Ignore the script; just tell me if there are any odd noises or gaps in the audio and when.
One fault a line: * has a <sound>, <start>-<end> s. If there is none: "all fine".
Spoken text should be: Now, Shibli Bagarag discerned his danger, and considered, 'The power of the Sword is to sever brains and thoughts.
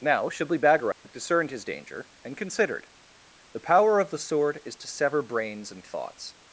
* has a dropout, 0.9-1.0 s